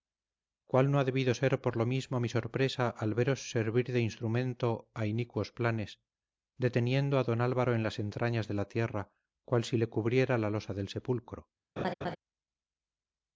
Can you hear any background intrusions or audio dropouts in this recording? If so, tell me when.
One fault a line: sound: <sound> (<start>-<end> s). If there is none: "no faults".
sound: laugh (11.8-12.2 s)